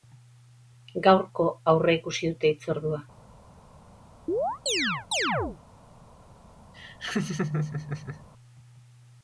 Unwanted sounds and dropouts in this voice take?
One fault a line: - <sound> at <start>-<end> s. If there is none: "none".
- chirp at 4.3-5.6 s
- laugh at 6.7-8.3 s